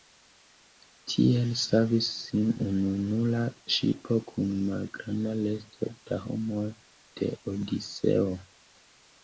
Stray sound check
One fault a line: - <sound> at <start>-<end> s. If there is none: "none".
none